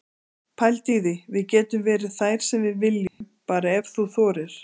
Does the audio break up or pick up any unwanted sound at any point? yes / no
yes